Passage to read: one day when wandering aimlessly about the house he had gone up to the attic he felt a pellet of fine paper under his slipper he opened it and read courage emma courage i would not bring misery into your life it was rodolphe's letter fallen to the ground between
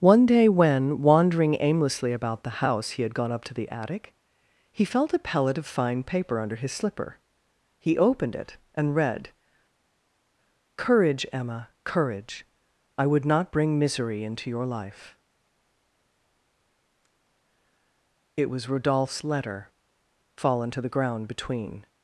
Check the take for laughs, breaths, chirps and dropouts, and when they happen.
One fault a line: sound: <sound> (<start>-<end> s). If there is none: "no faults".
no faults